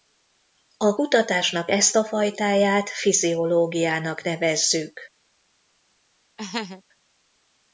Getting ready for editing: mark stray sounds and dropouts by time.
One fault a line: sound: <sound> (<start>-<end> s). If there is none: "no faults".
sound: laugh (6.4-6.8 s)